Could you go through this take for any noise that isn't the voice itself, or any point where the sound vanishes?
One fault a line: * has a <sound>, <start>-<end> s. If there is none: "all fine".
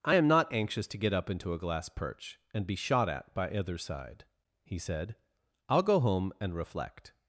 all fine